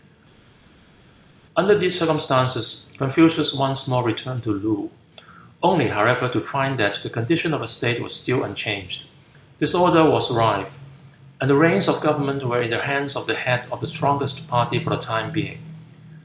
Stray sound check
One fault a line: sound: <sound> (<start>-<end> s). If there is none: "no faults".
no faults